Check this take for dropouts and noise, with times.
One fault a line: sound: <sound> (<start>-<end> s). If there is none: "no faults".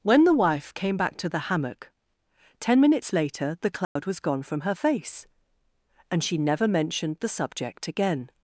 sound: dropout (3.8-4.0 s)